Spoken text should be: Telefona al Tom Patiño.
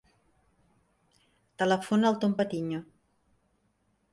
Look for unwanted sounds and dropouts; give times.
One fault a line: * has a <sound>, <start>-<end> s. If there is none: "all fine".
all fine